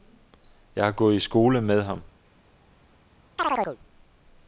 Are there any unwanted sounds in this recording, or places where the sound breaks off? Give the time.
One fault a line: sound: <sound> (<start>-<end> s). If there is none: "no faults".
sound: chirp (3.4-3.8 s)